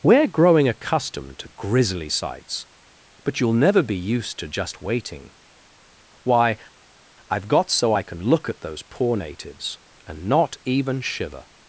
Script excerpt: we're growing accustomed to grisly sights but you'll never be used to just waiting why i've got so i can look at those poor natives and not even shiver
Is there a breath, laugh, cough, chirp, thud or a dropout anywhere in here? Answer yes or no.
no